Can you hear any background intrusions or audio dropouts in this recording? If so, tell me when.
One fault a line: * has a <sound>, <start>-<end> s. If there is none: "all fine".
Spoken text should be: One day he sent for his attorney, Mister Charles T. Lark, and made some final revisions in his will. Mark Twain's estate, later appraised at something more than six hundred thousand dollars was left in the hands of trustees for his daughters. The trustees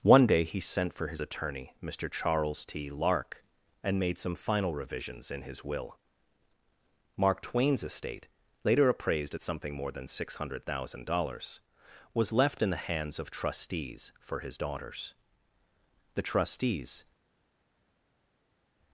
all fine